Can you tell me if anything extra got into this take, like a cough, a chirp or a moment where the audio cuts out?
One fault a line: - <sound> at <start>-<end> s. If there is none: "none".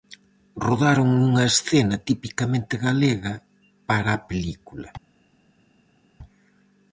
none